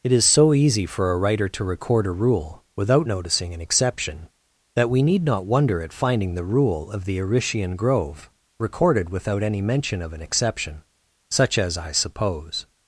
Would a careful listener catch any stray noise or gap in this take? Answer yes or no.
no